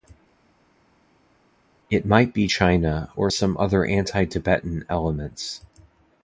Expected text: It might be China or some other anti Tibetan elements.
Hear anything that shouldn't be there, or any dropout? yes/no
no